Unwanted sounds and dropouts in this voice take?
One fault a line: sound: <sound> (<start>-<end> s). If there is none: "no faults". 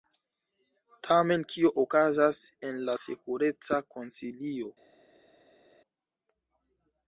no faults